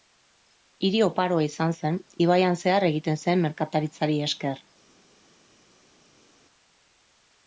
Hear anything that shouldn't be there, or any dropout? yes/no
no